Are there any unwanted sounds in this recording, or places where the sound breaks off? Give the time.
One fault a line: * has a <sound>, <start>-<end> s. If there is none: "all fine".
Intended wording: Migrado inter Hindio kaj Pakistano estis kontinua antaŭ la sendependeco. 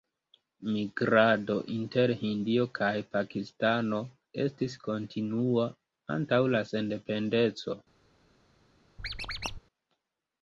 * has a squeak, 9.0-9.6 s